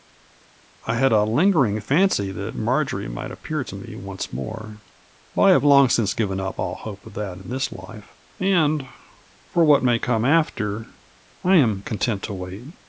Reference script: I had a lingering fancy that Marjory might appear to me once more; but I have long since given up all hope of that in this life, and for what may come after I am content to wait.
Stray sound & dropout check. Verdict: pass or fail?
pass